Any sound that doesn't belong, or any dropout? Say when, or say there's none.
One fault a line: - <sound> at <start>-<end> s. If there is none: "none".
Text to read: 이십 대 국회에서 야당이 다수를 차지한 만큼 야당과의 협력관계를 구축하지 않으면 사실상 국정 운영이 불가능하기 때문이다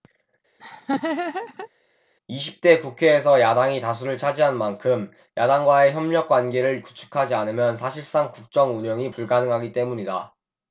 - laugh at 0.6-1.7 s